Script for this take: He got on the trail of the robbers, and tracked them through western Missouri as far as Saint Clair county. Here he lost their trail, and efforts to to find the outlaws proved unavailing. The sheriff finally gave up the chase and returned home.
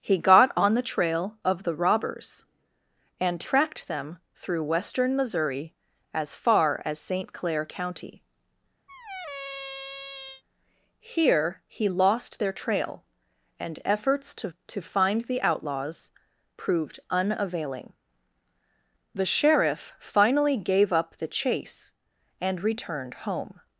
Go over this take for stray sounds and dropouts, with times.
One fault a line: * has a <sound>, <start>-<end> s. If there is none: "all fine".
* has a squeak, 8.9-10.4 s